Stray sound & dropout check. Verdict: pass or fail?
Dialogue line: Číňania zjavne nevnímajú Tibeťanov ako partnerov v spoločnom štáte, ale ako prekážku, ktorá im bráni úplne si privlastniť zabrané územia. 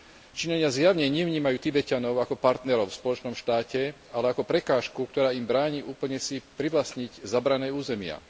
pass